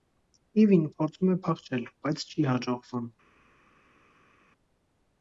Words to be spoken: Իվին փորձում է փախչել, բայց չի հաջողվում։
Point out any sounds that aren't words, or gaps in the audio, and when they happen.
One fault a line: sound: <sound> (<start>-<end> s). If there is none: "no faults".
no faults